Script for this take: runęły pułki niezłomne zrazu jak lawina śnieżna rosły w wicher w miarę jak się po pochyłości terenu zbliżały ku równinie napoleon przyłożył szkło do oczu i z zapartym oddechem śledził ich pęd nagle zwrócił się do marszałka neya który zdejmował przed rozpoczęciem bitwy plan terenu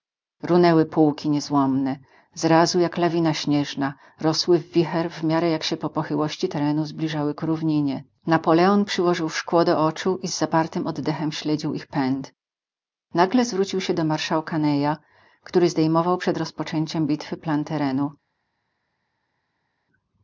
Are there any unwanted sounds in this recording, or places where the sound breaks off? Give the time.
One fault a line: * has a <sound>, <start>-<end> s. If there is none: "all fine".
all fine